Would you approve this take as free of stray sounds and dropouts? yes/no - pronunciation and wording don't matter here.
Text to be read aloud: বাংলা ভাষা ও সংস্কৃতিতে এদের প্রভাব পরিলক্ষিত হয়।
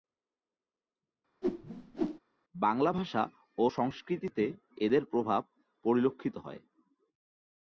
no